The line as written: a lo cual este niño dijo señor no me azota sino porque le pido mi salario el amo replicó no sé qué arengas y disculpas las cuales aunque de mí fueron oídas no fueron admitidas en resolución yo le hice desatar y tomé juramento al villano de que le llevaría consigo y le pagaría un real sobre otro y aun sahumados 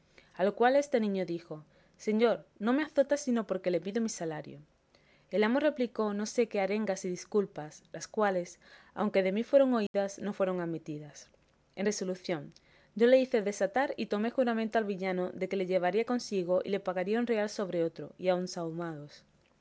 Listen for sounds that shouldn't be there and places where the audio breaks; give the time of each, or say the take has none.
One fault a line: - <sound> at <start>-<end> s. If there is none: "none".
- dropout at 9.9-9.9 s